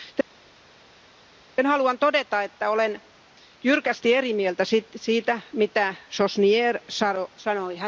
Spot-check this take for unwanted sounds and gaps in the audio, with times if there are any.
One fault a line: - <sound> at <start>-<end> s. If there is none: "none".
none